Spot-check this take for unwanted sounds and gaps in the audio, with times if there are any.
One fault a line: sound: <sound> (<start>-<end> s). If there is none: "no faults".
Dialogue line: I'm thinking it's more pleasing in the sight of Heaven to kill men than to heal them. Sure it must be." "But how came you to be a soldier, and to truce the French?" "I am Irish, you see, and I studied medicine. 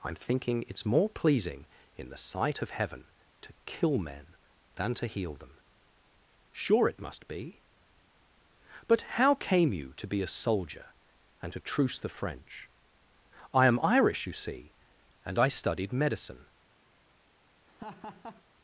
sound: laugh (17.7-18.4 s)